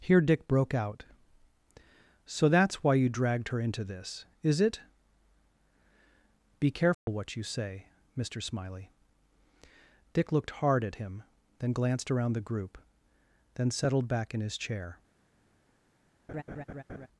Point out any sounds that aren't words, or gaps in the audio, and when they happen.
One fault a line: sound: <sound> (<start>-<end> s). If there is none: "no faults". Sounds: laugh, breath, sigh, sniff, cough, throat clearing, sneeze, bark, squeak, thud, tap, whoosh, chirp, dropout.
sound: dropout (6.9-7.1 s)
sound: laugh (16.3-17.1 s)